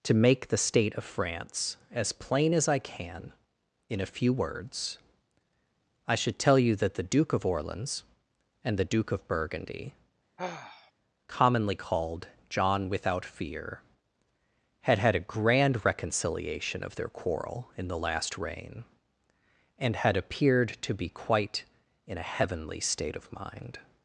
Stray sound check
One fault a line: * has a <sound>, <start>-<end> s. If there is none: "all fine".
* has a sigh, 10.4-10.9 s